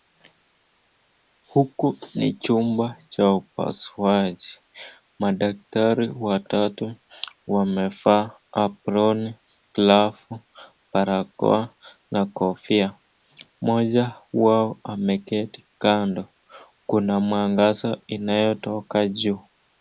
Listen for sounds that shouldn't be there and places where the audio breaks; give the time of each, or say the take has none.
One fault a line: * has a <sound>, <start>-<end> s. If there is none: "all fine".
all fine